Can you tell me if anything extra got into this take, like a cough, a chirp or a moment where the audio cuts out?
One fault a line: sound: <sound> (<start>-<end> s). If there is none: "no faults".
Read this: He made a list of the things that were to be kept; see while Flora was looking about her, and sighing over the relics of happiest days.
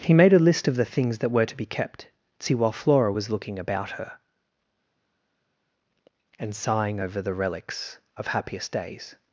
no faults